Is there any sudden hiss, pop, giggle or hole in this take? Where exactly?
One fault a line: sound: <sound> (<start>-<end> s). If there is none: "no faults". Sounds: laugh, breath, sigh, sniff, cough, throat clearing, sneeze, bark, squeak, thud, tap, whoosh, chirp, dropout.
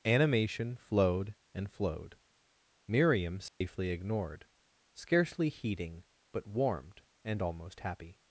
sound: dropout (3.5-3.6 s)